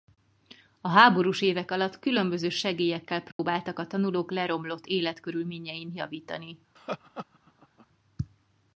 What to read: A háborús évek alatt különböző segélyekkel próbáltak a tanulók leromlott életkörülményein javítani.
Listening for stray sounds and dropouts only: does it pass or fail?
fail